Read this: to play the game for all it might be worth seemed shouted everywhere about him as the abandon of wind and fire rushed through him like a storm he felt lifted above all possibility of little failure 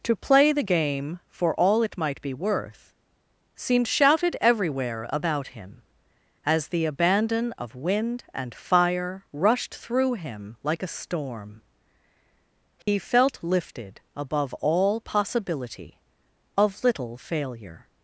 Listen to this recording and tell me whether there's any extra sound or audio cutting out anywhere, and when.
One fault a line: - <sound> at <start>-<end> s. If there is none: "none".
- dropout at 12.8-12.9 s